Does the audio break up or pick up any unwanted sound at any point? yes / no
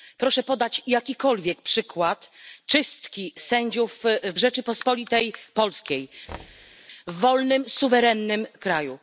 yes